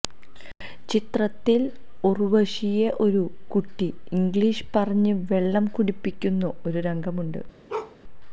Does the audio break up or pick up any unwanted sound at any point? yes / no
yes